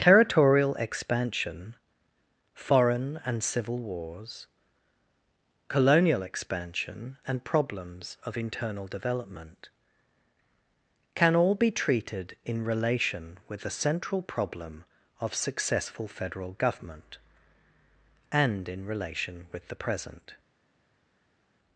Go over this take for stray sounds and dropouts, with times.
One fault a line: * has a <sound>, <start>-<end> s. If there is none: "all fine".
all fine